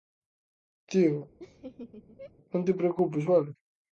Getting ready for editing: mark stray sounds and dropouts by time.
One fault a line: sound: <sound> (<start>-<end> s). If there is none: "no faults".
sound: laugh (1.4-2.3 s)